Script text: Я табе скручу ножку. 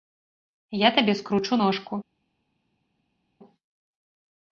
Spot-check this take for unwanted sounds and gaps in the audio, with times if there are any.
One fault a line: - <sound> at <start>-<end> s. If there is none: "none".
none